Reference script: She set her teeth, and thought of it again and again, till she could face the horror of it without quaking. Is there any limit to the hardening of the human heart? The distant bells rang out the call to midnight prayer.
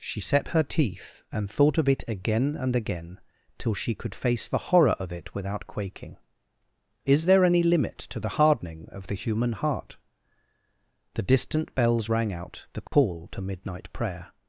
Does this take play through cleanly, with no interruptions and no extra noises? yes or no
no